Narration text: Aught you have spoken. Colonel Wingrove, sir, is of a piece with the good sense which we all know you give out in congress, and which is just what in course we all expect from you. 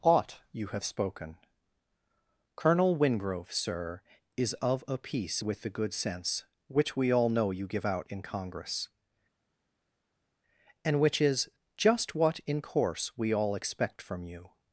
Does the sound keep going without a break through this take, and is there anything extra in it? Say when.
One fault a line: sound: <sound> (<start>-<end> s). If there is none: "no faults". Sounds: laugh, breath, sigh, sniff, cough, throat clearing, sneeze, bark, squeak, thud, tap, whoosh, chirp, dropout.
no faults